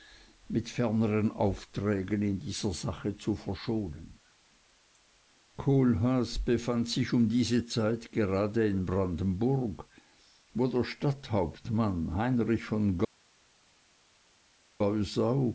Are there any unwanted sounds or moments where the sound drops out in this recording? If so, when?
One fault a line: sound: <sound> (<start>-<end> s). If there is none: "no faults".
no faults